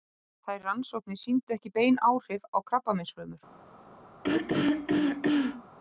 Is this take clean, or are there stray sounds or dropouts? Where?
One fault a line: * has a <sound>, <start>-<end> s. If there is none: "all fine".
* has a throat clearing, 4.2-5.6 s